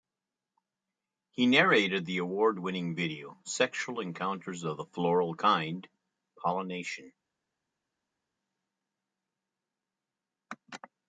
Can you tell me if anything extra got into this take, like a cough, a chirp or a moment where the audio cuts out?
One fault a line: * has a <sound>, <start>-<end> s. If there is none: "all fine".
all fine